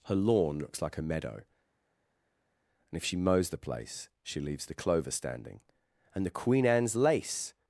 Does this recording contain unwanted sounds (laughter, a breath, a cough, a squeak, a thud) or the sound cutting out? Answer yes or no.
no